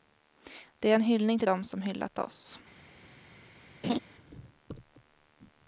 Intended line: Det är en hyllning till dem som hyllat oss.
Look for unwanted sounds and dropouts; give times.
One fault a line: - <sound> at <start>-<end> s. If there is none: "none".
- laugh at 3.8-4.0 s